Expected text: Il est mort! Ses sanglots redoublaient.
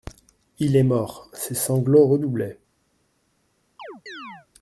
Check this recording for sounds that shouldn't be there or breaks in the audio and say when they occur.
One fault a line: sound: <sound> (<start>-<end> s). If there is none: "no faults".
sound: chirp (3.8-4.5 s)